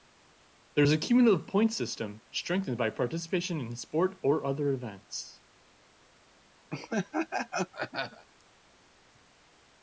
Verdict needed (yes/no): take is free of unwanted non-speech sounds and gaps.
no